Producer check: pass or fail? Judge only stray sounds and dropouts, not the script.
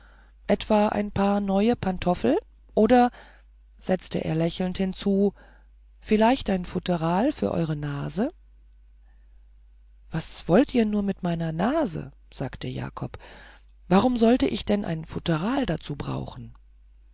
pass